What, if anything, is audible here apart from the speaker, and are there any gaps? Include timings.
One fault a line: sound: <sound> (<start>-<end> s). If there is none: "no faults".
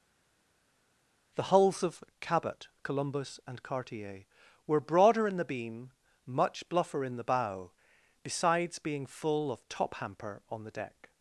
no faults